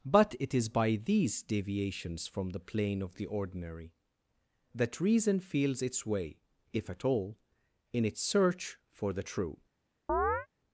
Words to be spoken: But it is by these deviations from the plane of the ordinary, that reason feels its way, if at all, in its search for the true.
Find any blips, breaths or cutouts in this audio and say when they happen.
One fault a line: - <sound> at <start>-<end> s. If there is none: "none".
- chirp at 10.1-10.5 s